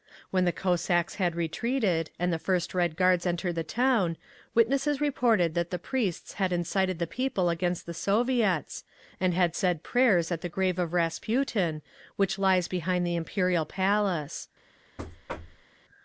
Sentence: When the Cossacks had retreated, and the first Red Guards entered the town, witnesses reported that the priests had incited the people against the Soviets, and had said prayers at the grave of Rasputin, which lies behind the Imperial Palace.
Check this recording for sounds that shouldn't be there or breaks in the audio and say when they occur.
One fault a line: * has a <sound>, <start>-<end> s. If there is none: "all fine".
* has a thud, 15.0-15.7 s